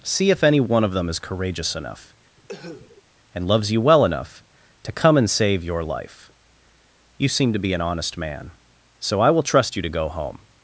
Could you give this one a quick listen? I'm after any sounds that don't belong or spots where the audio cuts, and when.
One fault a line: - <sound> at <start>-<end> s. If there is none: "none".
- cough at 2.4-3.0 s